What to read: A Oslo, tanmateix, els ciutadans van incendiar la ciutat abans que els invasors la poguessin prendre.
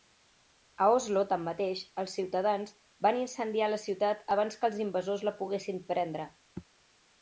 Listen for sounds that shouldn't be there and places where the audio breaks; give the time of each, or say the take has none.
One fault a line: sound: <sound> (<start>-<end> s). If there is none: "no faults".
no faults